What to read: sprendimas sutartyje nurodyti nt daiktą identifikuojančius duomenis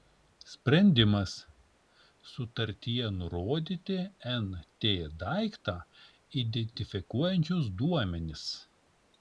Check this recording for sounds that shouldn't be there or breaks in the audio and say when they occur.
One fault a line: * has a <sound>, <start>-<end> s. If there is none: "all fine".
all fine